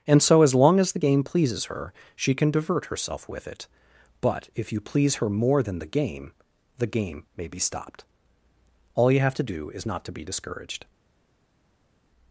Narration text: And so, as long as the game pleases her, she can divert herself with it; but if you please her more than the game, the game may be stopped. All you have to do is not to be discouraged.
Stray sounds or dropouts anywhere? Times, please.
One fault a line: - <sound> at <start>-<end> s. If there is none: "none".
none